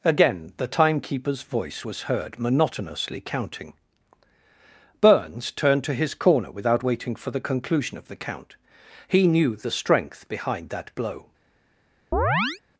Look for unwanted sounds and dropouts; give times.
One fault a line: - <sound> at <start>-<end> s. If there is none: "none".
- chirp at 12.1-12.6 s